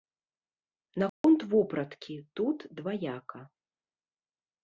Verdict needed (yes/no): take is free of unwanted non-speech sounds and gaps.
no